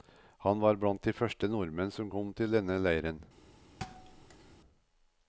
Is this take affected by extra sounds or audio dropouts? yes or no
yes